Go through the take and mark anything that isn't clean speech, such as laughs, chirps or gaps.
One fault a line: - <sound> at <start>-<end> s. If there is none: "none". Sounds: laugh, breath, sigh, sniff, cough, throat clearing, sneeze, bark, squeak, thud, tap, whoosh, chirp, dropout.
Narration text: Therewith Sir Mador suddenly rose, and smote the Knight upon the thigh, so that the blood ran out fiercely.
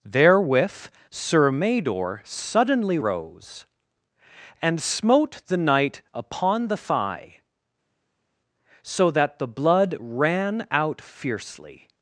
none